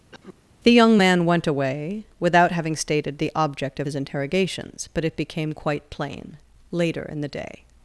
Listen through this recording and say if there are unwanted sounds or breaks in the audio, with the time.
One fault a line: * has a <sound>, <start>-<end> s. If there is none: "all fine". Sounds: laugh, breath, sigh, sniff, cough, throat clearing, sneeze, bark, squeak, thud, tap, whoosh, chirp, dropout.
* has a cough, 0.1-0.4 s